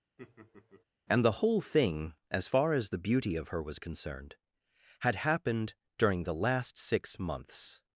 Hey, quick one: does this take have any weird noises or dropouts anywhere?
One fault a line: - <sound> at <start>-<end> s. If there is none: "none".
- laugh at 0.2-0.8 s